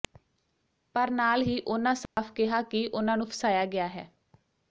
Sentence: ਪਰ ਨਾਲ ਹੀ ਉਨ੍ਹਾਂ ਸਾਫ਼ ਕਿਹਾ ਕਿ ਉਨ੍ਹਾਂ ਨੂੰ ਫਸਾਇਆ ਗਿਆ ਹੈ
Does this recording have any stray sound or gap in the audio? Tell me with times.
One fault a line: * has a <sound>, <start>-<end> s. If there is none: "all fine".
* has a dropout, 2.1-2.2 s